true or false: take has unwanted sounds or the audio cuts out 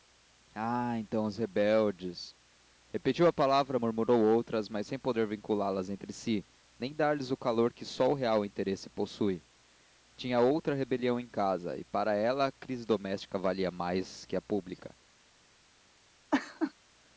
true